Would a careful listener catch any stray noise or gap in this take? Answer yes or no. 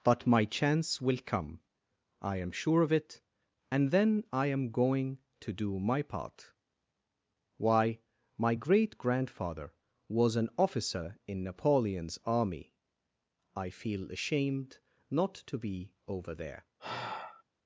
yes